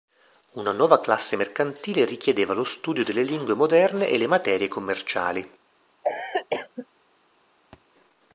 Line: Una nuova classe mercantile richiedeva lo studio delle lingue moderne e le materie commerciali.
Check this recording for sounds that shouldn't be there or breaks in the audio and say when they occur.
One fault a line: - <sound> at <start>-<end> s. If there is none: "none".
- cough at 6.0-6.9 s
- thud at 7.7-7.8 s